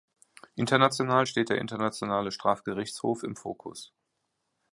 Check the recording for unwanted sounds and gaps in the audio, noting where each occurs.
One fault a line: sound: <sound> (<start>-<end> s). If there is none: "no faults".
no faults